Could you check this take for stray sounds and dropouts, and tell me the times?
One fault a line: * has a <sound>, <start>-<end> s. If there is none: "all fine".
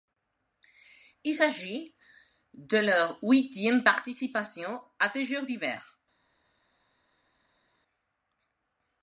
all fine